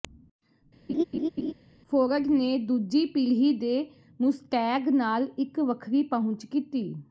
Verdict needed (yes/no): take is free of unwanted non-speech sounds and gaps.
no